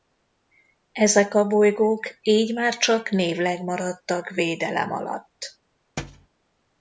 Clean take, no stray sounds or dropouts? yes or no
no